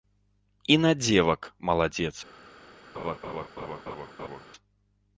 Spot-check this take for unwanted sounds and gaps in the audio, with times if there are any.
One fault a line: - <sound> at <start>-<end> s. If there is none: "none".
- laugh at 2.9-4.5 s